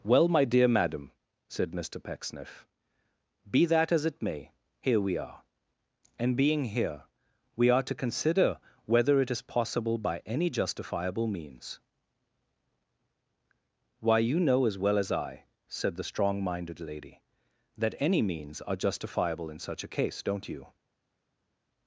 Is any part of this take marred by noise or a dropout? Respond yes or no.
no